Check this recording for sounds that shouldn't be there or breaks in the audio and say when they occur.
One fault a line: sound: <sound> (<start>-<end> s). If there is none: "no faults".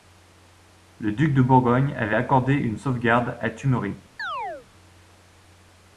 sound: chirp (4.2-4.7 s)